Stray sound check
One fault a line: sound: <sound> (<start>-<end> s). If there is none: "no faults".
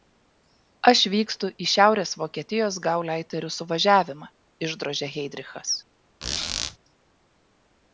sound: squeak (6.2-6.8 s)